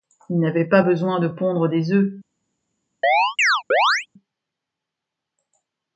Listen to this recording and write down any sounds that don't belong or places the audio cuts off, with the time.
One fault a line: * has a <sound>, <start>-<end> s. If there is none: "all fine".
* has a chirp, 3.0-4.1 s